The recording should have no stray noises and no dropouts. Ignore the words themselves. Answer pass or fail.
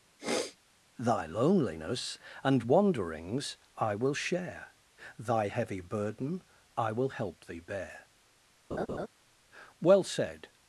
fail